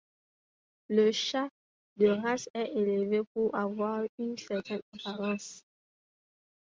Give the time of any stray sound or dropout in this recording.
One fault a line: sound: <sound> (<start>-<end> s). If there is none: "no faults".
no faults